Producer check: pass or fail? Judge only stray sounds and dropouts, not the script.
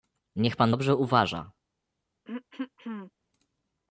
fail